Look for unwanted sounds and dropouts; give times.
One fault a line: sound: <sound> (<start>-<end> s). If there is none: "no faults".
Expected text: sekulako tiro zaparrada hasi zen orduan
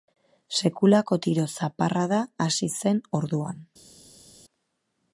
no faults